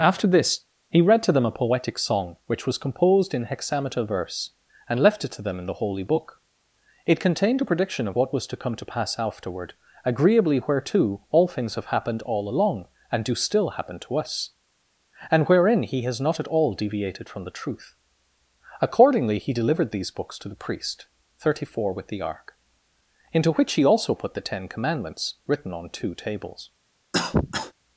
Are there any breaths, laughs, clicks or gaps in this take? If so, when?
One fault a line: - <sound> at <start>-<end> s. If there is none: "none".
- cough at 27.1-27.7 s